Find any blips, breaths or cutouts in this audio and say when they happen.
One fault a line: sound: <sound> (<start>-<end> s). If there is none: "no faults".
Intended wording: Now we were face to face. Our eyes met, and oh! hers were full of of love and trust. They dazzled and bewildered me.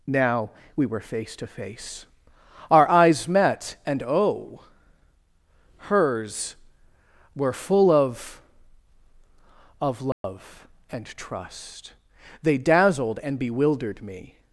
sound: dropout (10.1-10.2 s)